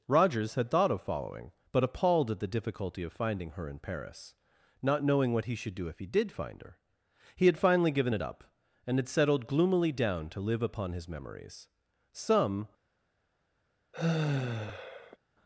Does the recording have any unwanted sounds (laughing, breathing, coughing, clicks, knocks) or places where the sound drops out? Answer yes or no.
yes